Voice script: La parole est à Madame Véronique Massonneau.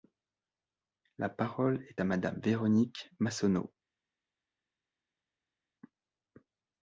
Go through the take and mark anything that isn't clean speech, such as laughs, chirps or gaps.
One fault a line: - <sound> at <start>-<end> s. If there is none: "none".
none